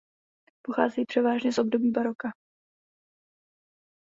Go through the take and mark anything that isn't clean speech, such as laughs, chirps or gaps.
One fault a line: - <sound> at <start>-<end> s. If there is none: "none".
none